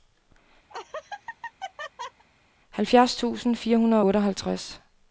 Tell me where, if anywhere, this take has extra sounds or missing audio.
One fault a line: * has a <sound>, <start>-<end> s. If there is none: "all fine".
* has a laugh, 0.7-2.2 s